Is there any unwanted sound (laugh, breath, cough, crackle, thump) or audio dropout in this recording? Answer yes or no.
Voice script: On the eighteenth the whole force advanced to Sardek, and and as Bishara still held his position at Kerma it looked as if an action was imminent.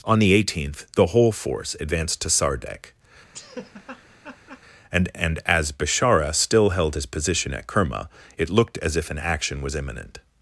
yes